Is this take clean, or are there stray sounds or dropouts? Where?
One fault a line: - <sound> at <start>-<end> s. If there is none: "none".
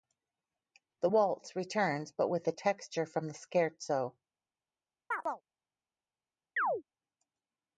- chirp at 5.1-5.4 s
- chirp at 6.6-6.8 s